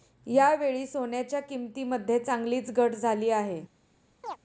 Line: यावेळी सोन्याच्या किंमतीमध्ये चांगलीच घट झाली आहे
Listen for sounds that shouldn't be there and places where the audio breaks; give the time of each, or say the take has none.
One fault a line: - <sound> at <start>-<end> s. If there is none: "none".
- chirp at 4.2-4.4 s